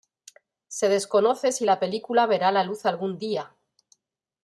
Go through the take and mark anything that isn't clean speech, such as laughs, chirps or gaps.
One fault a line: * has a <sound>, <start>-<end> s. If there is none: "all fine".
all fine